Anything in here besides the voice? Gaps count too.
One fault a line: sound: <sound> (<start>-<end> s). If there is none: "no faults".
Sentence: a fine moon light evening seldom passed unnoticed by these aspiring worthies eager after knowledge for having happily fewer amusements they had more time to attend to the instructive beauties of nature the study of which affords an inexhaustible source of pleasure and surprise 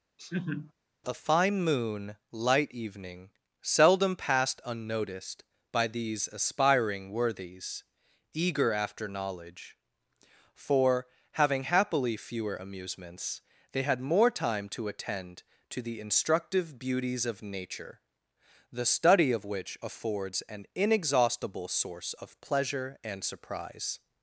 sound: laugh (0.2-0.7 s)